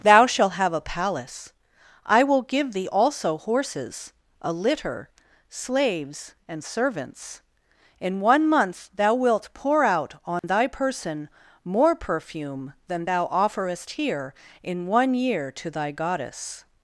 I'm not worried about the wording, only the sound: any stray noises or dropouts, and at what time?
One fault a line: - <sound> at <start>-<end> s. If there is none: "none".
- dropout at 10.4-10.4 s